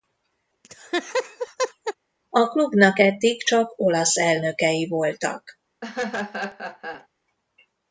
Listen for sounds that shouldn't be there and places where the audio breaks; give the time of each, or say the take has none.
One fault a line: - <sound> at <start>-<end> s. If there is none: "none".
- laugh at 0.6-1.9 s
- laugh at 5.8-7.1 s